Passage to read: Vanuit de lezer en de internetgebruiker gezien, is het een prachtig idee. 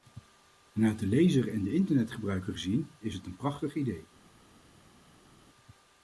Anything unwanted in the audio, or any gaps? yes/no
no